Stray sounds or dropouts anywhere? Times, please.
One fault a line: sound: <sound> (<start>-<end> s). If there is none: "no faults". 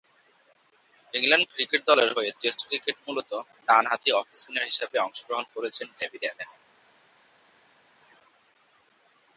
no faults